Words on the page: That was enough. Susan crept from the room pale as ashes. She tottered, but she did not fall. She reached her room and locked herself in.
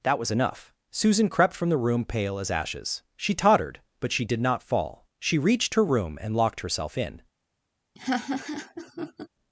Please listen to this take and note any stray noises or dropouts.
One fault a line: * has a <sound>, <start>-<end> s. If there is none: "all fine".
* has a laugh, 8.0-9.3 s